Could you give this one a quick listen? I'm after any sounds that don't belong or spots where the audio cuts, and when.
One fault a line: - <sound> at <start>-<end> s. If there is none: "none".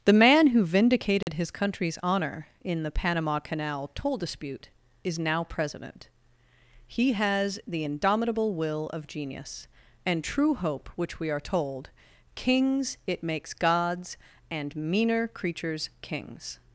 - dropout at 1.2-1.3 s